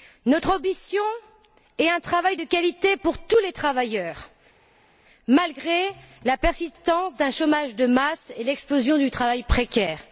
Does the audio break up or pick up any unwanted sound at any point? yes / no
no